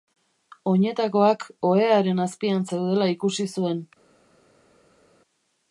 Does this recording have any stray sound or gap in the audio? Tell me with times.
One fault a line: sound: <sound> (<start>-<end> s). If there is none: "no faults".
no faults